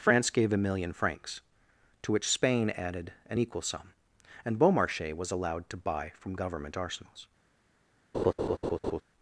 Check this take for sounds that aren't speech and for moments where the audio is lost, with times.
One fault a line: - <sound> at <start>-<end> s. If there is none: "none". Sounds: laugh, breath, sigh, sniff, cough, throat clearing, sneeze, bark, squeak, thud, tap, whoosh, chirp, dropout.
- laugh at 8.1-9.0 s